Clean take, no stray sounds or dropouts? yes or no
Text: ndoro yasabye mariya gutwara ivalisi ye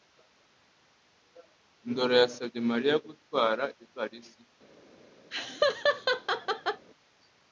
no